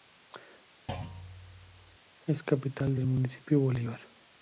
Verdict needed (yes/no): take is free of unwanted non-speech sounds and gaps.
no